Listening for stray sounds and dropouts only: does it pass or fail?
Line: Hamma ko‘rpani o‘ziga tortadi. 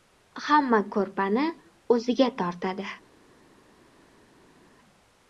pass